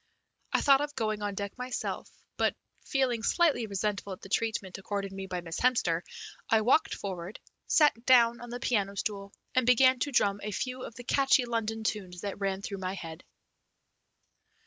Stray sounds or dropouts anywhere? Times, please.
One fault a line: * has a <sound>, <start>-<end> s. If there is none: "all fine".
all fine